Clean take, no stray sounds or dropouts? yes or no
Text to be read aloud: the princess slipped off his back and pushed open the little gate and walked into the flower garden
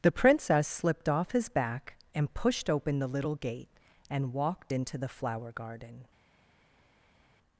yes